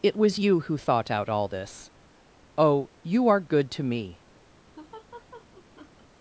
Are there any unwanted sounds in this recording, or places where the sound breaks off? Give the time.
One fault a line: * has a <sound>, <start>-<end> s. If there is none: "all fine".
* has a laugh, 4.8-6.1 s